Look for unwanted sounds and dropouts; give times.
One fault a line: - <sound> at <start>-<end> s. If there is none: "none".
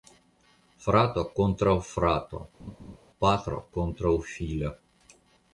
- laugh at 2.6-3.0 s